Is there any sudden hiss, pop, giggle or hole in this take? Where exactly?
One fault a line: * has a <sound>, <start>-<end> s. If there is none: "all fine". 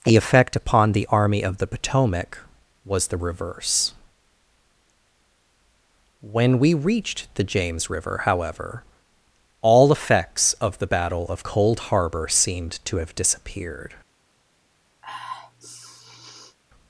* has a sniff, 15.0-16.6 s